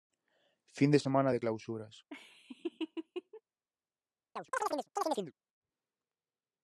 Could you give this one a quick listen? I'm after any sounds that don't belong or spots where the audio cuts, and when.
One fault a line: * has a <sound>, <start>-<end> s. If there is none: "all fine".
* has a laugh, 2.1-3.4 s
* has a chirp, 4.4-5.3 s